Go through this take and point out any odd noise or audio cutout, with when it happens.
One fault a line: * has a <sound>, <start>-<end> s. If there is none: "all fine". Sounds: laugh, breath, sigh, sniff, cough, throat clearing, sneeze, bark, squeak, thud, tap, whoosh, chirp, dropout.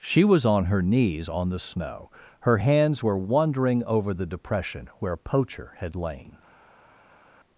all fine